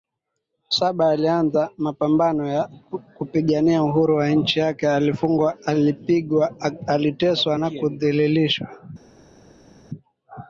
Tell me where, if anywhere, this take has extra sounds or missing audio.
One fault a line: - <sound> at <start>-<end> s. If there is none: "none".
none